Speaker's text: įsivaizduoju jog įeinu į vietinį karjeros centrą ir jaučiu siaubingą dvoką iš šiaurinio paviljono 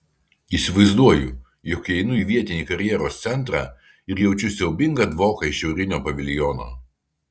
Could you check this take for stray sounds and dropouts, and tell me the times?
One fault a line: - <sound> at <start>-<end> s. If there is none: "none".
none